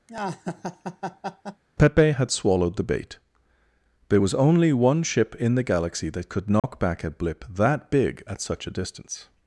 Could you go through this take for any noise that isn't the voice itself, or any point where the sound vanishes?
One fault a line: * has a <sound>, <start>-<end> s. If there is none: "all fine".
* has a laugh, 0.1-1.6 s
* has a dropout, 6.6-6.6 s